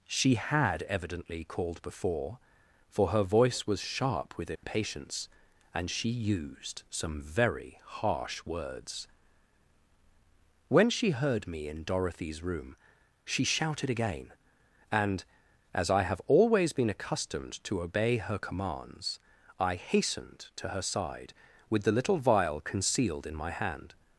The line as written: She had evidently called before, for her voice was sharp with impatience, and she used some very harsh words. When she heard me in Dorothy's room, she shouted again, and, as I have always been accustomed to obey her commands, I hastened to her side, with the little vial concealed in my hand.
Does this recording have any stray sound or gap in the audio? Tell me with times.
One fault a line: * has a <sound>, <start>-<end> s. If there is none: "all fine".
* has a dropout, 4.6-4.6 s